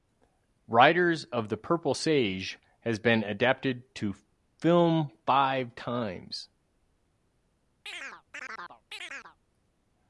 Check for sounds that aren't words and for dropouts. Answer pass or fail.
fail